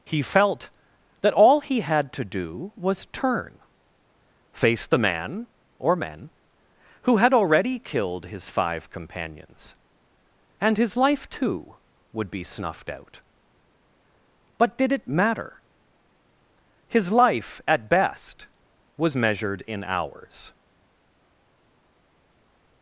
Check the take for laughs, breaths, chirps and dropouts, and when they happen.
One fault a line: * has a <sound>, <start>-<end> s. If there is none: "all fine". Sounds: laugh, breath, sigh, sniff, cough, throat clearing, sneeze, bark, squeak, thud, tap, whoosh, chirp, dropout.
all fine